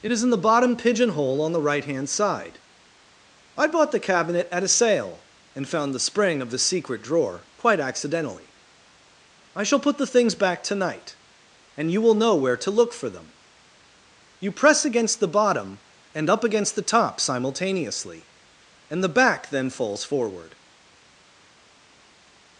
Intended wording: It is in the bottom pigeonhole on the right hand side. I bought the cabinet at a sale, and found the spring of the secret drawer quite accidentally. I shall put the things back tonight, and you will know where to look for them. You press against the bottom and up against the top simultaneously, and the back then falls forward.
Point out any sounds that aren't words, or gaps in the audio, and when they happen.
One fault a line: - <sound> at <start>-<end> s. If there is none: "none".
none